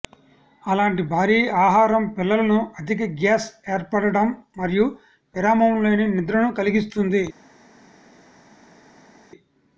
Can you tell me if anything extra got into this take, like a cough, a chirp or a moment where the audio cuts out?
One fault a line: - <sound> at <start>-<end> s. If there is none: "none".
none